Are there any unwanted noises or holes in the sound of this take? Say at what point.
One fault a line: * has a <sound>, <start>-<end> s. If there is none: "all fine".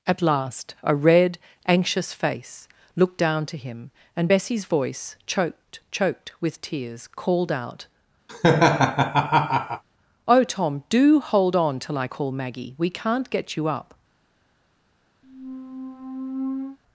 * has a laugh, 8.3-9.8 s
* has a squeak, 15.2-16.8 s